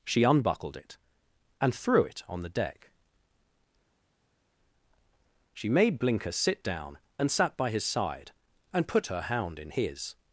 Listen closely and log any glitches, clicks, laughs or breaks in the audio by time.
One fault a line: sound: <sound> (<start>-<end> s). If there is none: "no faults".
no faults